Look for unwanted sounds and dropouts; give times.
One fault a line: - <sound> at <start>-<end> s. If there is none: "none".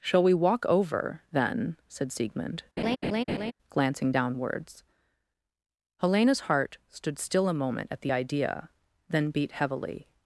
- laugh at 2.8-3.5 s